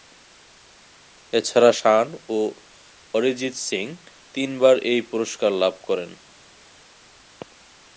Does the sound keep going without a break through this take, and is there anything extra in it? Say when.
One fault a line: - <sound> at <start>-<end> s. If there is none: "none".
none